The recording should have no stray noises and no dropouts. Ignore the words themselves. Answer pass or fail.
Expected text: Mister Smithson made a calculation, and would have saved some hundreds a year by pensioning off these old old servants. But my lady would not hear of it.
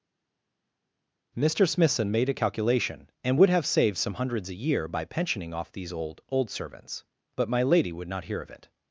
pass